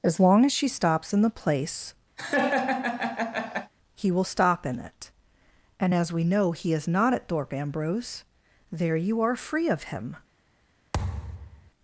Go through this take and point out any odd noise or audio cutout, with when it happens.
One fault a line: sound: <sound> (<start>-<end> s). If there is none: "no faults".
sound: laugh (2.2-3.7 s)
sound: thud (10.9-11.7 s)